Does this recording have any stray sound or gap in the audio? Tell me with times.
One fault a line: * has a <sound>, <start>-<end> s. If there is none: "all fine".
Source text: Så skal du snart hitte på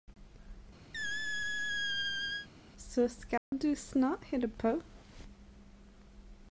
* has a squeak, 0.9-2.5 s
* has a dropout, 3.4-3.5 s